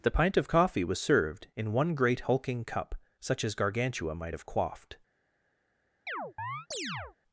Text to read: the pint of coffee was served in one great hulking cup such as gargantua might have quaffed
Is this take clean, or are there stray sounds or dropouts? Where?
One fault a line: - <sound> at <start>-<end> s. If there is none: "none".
- chirp at 6.1-7.2 s